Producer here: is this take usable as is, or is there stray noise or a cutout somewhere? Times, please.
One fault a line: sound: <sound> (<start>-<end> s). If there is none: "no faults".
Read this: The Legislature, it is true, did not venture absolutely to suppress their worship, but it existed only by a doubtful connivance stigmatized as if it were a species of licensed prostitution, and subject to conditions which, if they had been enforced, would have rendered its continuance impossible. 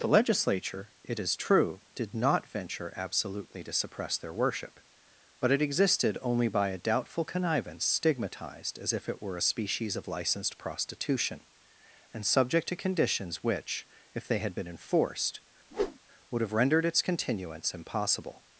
sound: whoosh (15.7-16.0 s)